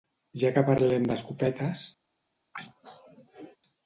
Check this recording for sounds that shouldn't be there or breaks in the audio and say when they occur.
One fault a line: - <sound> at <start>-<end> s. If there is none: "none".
- throat clearing at 2.5-3.6 s